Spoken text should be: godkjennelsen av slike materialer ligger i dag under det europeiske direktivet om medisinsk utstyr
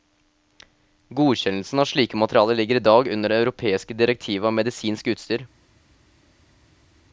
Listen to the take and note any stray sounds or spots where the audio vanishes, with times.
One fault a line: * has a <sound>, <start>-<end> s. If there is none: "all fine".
all fine